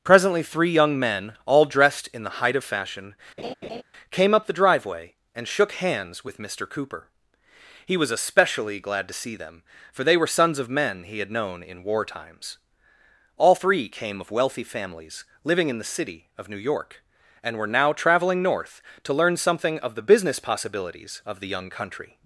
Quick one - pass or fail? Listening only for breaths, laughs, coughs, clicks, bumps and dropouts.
fail